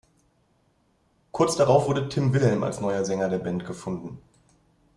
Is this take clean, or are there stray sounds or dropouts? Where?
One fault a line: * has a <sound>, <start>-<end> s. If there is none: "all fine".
all fine